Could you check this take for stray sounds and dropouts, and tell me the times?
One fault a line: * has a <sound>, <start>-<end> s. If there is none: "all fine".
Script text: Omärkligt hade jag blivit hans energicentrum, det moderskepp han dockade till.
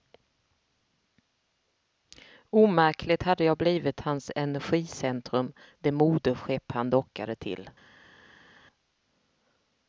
all fine